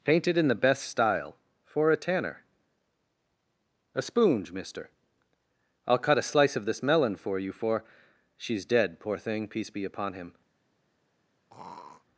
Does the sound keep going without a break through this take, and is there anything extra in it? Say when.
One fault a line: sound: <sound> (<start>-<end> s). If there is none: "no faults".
sound: throat clearing (11.5-12.1 s)